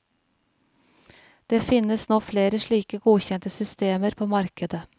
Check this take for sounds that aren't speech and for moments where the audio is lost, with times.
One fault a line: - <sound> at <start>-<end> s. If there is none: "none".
none